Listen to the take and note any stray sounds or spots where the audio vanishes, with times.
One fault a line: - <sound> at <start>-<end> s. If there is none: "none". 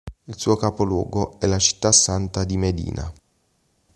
none